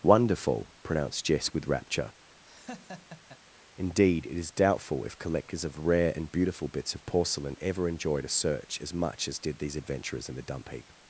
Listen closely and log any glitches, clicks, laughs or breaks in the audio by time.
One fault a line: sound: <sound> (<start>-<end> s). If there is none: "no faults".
sound: laugh (2.4-3.4 s)